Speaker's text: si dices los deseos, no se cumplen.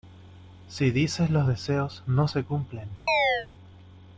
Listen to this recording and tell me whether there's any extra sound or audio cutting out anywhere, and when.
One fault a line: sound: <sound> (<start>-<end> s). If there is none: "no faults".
sound: chirp (3.1-3.5 s)